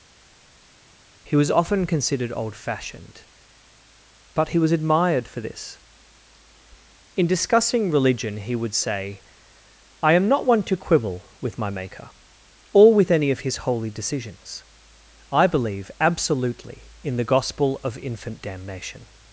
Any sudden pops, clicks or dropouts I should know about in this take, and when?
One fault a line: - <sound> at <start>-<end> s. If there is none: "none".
none